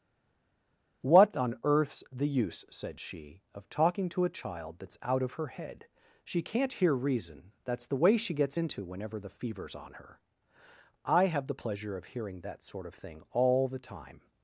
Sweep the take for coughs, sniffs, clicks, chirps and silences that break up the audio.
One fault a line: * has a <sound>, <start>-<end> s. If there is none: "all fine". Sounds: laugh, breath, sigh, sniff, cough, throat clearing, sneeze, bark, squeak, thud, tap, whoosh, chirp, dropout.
all fine